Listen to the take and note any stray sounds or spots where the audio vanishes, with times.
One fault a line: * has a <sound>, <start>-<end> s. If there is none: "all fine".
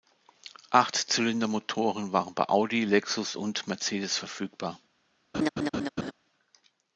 * has a laugh, 5.3-6.1 s